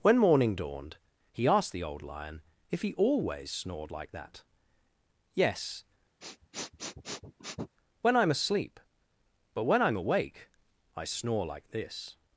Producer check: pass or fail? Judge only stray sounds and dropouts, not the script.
fail